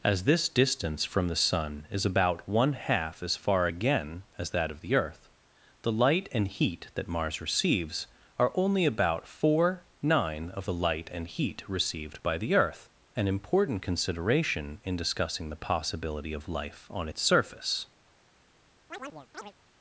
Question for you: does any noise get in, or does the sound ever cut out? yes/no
yes